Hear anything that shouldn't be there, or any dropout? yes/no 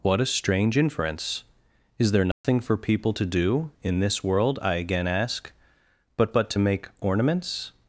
yes